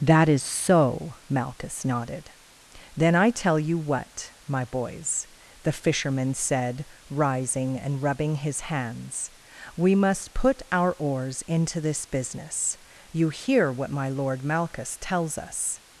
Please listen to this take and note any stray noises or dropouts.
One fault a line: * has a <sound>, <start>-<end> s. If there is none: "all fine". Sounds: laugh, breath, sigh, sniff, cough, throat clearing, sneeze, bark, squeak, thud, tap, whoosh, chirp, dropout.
all fine